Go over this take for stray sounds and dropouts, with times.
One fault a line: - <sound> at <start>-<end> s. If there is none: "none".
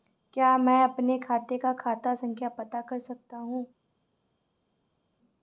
none